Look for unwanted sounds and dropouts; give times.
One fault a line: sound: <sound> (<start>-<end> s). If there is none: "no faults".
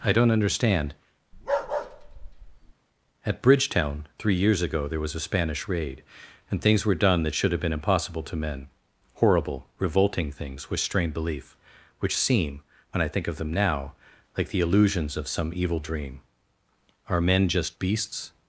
sound: bark (1.3-2.7 s)